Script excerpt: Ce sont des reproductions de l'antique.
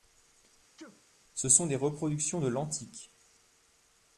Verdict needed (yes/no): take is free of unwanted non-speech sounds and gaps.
no